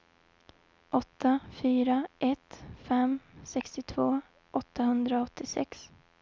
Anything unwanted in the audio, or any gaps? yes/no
no